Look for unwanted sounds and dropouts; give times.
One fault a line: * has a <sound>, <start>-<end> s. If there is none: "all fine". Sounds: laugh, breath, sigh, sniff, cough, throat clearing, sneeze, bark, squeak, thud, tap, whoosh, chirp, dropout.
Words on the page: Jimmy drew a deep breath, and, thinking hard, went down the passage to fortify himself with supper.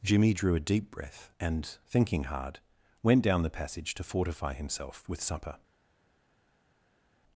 all fine